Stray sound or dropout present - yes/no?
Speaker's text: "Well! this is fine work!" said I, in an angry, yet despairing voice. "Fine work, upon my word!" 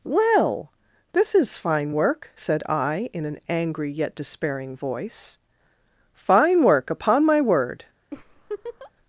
yes